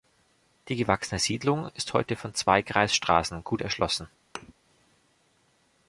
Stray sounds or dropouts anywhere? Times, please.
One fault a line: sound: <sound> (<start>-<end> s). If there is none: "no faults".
sound: thud (4.4-4.5 s)